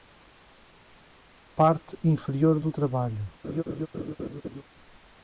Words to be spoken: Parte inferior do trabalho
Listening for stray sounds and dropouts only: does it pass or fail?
fail